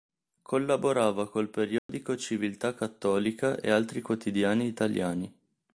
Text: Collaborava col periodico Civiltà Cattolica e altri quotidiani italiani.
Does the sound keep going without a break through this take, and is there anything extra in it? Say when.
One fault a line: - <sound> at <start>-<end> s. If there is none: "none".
- dropout at 1.8-1.9 s